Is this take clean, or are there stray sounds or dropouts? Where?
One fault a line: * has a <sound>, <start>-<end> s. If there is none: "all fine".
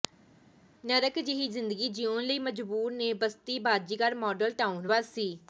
all fine